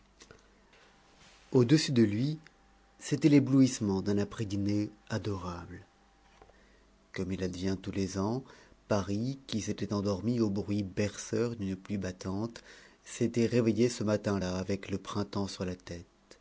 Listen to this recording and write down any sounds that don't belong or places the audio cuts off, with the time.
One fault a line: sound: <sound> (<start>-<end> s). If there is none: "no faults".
no faults